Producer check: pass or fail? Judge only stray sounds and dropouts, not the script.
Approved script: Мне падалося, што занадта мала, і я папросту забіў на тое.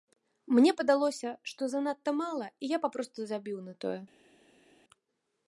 pass